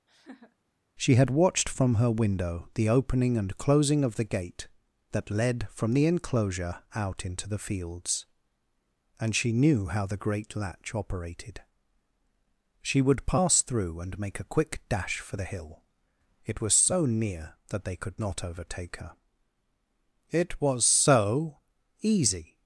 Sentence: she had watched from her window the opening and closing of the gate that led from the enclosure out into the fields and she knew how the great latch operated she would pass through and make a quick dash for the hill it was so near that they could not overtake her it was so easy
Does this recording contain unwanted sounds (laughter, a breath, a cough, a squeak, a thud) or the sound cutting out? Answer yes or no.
yes